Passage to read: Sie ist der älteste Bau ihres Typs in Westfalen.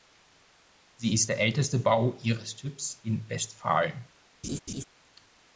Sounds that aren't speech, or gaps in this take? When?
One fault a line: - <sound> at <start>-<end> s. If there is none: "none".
- laugh at 4.4-4.8 s